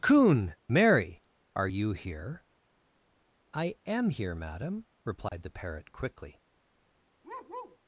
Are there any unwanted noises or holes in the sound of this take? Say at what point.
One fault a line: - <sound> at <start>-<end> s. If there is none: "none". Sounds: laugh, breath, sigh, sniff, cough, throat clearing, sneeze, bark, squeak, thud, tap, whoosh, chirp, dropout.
- dropout at 5.3-5.3 s
- bark at 7.2-7.8 s